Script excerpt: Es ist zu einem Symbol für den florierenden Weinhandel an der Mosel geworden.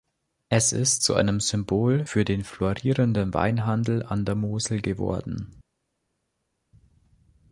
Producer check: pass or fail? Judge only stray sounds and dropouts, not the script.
pass